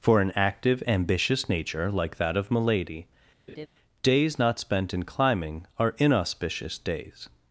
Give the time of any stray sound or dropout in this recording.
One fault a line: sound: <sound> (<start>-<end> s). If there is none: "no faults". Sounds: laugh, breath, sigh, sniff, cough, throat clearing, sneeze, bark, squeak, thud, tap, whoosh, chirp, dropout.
sound: laugh (3.5-3.7 s)